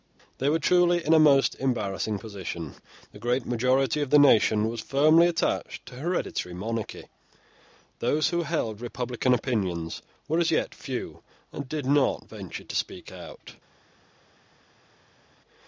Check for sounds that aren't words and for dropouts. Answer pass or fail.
pass